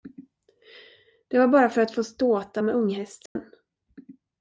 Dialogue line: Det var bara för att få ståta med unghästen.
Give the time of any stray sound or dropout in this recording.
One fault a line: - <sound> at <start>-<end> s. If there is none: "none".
- dropout at 3.3-3.4 s